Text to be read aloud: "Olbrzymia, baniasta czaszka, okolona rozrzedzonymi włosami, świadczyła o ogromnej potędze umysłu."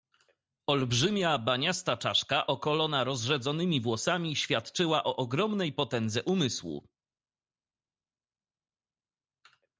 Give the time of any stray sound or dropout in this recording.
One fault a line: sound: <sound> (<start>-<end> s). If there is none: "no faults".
no faults